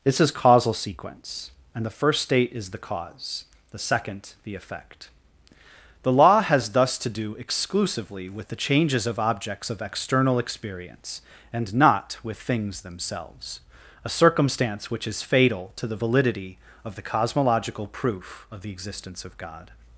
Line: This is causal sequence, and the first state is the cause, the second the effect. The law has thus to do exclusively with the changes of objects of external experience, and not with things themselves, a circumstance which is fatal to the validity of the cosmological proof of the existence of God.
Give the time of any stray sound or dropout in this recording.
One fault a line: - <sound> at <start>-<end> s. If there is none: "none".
none